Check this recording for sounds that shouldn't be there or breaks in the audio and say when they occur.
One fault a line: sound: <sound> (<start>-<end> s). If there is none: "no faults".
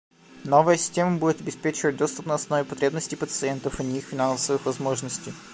no faults